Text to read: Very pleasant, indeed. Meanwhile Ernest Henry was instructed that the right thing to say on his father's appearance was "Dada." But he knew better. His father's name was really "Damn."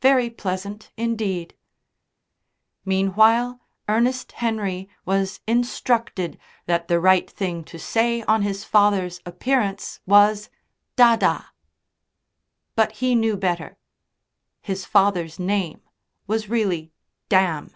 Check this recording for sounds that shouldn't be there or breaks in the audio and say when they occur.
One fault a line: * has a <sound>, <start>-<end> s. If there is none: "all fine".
all fine